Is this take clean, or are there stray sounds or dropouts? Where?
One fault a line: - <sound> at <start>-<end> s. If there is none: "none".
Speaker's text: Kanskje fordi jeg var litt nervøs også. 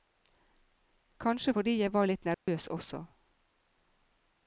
- dropout at 2.3-2.5 s